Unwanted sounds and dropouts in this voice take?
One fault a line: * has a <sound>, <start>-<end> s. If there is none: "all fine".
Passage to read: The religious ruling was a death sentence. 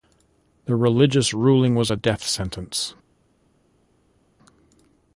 all fine